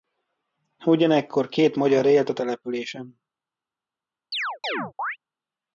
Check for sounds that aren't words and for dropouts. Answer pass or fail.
fail